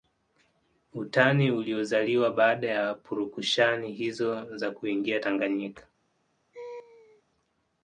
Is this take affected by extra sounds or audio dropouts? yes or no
yes